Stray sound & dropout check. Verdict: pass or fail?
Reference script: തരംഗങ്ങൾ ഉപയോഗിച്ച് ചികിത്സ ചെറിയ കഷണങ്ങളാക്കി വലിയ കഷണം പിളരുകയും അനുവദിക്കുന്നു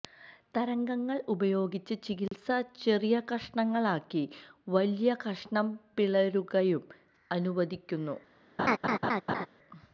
fail